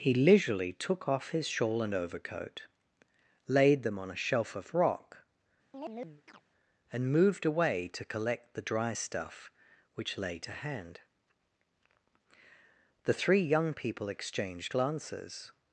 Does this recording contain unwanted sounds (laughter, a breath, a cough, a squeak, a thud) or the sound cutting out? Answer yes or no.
yes